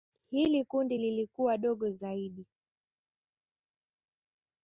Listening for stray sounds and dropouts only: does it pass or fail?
pass